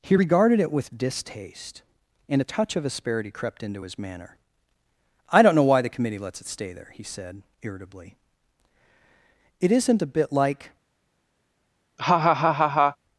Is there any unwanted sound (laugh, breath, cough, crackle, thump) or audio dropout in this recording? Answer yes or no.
yes